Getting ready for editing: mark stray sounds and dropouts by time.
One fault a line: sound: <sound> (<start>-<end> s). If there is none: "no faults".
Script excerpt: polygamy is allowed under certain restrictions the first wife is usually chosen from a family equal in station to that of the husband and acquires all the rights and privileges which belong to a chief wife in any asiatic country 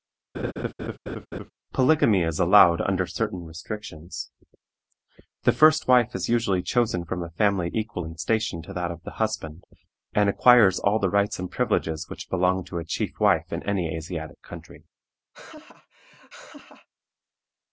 sound: laugh (0.3-1.5 s)
sound: laugh (15.3-16.9 s)